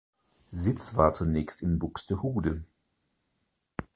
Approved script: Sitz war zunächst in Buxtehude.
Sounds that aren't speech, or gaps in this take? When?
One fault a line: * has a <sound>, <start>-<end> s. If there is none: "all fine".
all fine